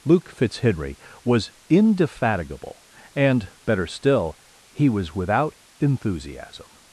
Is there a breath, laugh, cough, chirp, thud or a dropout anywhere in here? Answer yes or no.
no